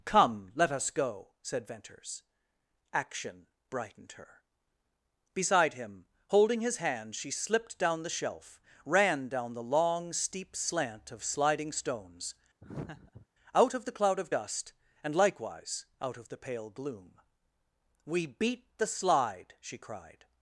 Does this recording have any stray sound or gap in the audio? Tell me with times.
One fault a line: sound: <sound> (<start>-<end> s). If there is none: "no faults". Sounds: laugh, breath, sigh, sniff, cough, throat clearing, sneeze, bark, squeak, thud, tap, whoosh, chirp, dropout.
sound: laugh (12.6-13.3 s)